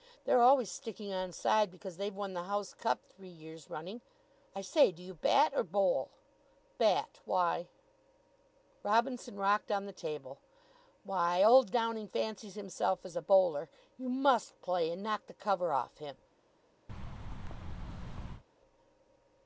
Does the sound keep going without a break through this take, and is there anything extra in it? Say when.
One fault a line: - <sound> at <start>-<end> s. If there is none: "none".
- thud at 16.9-18.4 s